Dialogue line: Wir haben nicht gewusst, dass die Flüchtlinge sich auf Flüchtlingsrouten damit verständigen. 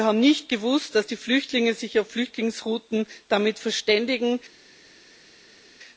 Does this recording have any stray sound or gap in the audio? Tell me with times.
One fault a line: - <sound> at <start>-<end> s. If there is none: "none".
none